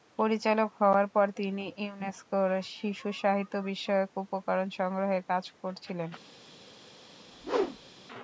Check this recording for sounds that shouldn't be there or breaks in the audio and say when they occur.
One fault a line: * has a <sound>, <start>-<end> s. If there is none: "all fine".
* has a whoosh, 7.2-8.0 s